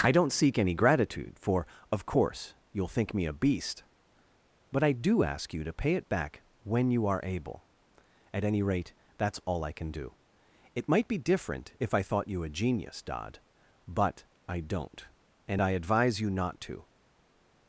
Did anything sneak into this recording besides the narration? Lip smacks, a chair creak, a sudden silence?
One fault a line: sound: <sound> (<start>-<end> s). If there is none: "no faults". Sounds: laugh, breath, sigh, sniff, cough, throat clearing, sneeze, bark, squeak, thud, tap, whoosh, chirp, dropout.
no faults